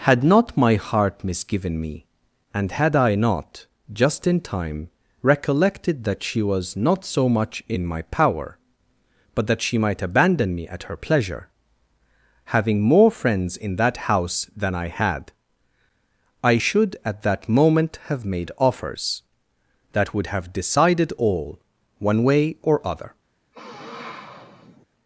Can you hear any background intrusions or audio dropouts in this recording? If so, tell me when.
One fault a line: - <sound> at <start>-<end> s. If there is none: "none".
- sniff at 23.5-24.9 s